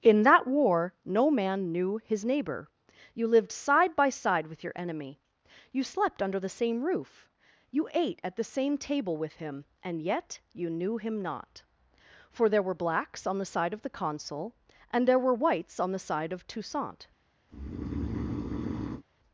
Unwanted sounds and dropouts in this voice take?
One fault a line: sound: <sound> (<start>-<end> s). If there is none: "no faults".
sound: breath (17.5-19.0 s)